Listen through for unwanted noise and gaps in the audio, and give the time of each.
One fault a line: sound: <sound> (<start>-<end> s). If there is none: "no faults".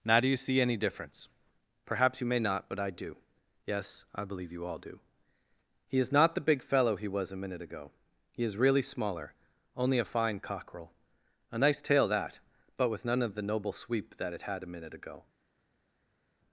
no faults